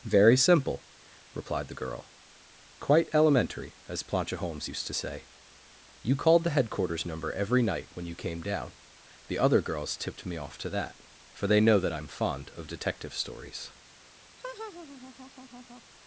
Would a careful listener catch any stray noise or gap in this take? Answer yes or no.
yes